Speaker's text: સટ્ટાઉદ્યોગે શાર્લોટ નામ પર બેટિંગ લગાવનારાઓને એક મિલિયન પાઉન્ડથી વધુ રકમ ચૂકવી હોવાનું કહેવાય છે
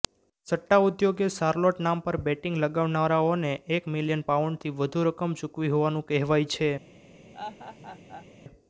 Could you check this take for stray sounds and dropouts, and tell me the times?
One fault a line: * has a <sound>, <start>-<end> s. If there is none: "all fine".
* has a laugh, 7.3-8.3 s